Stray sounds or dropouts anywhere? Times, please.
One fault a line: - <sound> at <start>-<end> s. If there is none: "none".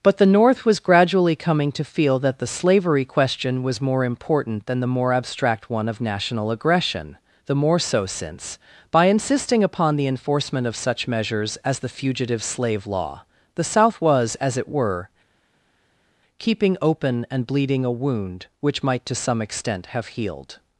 none